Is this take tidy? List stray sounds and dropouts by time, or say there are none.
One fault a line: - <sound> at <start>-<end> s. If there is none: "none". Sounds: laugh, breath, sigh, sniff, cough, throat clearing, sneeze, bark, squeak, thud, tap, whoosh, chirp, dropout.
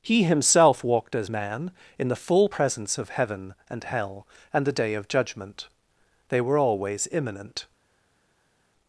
none